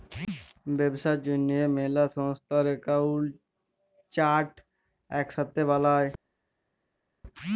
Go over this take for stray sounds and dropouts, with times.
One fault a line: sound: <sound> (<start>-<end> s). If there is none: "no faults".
no faults